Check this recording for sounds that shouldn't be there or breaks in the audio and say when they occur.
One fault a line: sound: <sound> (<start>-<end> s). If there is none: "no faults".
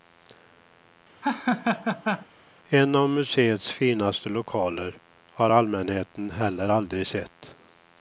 sound: laugh (1.2-2.3 s)